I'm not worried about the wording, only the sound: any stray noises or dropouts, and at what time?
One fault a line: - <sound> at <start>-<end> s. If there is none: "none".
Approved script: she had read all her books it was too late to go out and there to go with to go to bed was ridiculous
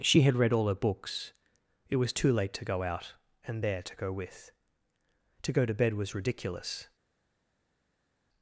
none